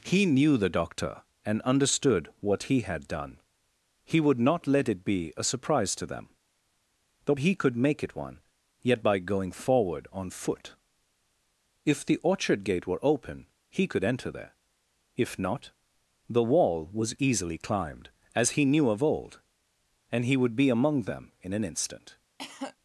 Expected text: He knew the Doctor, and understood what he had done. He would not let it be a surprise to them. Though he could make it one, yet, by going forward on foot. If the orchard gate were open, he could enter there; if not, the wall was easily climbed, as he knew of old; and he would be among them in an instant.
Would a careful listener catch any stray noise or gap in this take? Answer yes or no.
yes